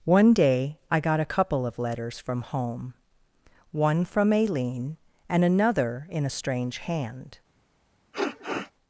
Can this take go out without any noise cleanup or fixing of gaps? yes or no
no